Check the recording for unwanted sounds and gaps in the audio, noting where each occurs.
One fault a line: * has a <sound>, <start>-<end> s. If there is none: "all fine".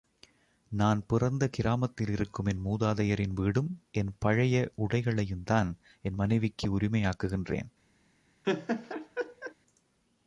* has a laugh, 8.4-9.5 s